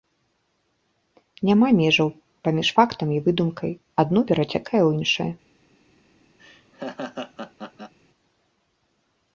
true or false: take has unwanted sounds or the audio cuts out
true